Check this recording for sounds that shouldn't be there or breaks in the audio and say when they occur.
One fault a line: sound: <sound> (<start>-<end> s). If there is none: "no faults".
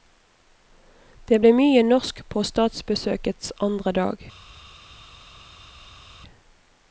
no faults